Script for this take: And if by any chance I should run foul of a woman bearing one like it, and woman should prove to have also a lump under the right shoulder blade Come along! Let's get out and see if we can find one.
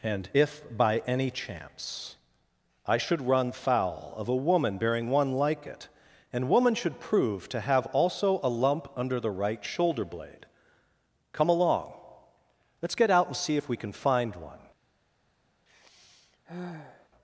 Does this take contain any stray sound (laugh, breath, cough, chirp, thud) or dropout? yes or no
yes